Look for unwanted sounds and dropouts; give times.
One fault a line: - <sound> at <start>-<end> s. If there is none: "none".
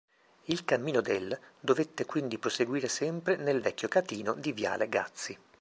none